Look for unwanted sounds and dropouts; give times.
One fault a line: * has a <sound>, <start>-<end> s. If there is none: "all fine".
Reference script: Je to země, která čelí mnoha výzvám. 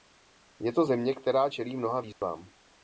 * has a dropout, 2.1-2.2 s